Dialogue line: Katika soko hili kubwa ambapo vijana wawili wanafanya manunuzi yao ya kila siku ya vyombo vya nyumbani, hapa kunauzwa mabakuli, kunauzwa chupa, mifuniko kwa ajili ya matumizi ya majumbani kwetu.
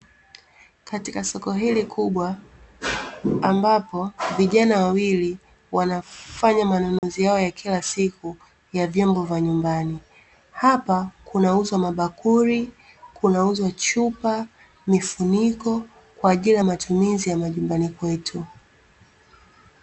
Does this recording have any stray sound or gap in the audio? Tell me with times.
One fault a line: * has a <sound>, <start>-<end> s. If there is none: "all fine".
* has a dropout, 7.0-7.0 s